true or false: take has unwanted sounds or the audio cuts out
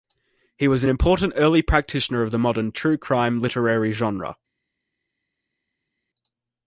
false